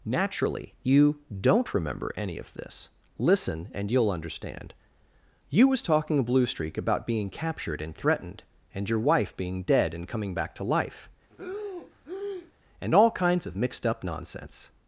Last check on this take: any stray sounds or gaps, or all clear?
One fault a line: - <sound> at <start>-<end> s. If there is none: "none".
- breath at 11.3-12.5 s